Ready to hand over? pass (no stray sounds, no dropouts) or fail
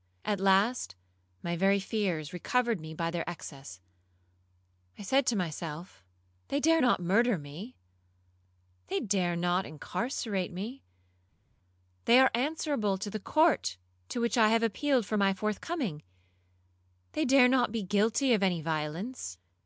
pass